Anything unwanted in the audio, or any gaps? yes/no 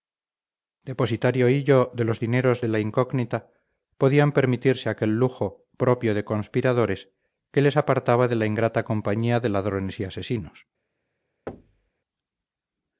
yes